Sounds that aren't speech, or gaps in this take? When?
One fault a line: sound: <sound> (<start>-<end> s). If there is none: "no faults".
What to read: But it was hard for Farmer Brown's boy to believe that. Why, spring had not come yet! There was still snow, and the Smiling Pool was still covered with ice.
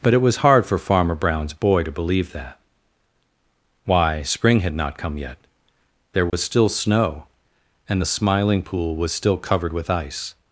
sound: dropout (6.3-6.3 s)